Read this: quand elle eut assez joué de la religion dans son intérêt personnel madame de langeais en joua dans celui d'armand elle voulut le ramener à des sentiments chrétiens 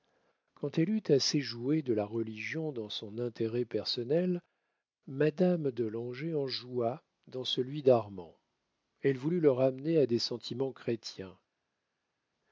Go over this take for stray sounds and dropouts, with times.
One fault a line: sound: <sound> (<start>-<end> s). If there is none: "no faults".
no faults